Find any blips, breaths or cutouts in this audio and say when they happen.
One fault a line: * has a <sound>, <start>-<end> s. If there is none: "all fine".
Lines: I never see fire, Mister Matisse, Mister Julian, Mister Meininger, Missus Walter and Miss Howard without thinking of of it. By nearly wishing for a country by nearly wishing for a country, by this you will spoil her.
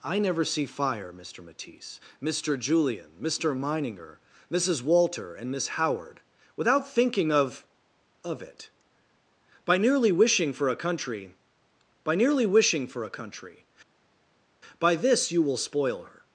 all fine